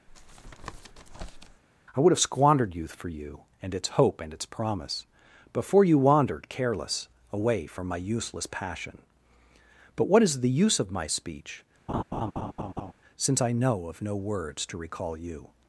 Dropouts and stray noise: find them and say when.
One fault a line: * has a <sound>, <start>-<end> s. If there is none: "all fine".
* has a tap, 0.1-1.6 s
* has a laugh, 11.9-12.9 s